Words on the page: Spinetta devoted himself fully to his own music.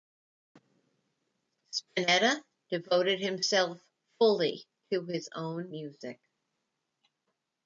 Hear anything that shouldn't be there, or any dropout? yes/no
no